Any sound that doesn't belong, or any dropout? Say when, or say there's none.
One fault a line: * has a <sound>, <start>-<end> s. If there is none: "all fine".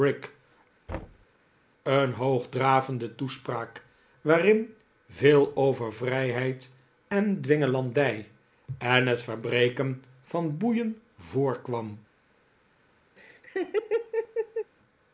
* has a thud, 0.9-1.3 s
* has a laugh, 13.2-14.7 s